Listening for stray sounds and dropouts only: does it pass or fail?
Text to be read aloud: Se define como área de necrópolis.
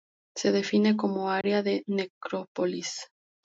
fail